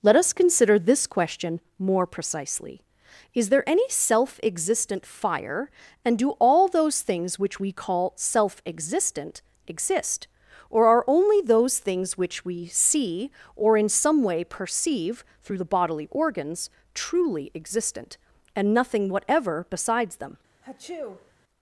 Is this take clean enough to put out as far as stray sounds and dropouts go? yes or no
no